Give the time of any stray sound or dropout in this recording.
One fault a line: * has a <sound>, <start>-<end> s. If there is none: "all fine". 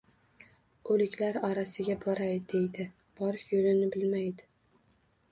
all fine